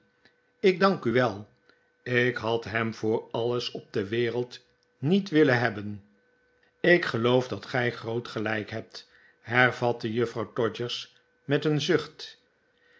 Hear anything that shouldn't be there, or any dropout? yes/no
no